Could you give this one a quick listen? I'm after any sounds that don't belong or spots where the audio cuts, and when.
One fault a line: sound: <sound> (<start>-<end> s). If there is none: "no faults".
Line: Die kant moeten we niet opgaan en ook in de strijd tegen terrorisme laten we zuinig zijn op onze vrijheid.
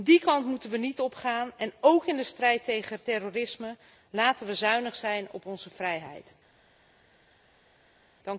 no faults